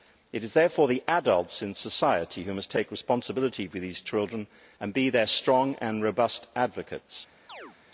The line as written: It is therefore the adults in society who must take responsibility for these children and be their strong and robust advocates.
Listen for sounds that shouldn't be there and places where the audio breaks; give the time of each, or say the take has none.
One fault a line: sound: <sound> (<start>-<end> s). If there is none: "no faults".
sound: chirp (7.5-7.8 s)